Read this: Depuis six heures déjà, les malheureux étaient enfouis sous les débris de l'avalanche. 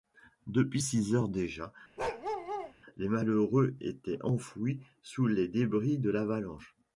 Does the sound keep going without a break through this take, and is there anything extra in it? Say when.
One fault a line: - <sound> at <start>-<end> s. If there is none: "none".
- bark at 2.0-2.7 s